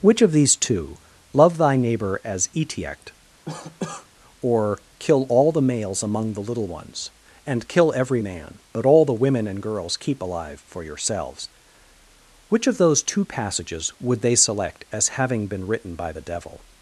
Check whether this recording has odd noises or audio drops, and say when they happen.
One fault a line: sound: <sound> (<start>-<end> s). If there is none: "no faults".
sound: cough (3.5-4.1 s)